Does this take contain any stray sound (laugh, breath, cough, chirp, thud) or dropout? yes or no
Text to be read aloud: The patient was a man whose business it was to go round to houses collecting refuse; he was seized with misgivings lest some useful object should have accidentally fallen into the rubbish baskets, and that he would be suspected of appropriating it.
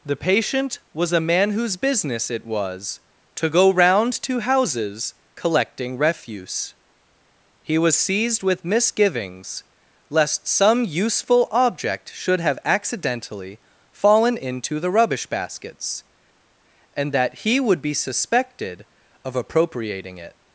no